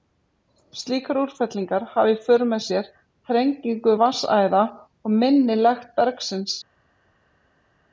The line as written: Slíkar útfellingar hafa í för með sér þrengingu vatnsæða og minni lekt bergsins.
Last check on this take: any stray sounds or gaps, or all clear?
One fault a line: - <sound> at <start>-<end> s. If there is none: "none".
none